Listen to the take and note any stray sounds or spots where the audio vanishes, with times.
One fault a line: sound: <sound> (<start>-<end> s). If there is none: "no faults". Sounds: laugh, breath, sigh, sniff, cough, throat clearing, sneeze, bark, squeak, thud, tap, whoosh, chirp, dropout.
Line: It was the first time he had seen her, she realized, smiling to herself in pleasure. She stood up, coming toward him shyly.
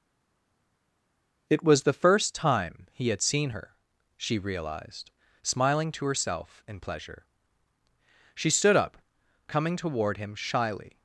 no faults